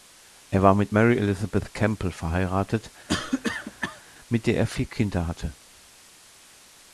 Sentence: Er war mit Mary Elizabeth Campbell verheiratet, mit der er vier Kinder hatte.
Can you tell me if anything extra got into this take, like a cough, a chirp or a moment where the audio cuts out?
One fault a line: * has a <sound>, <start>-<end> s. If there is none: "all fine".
* has a cough, 3.1-4.0 s